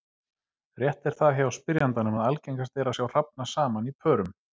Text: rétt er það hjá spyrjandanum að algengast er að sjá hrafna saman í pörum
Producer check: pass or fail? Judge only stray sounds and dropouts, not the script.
pass